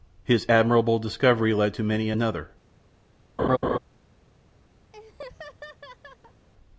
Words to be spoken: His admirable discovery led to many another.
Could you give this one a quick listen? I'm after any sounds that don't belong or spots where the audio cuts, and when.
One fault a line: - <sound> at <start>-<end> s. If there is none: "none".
- laugh at 3.4-3.8 s
- laugh at 4.9-6.5 s